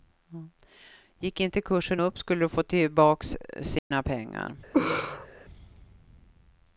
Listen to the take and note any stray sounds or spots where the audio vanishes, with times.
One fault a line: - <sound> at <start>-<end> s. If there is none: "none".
- dropout at 3.8-3.9 s
- laugh at 4.7-5.3 s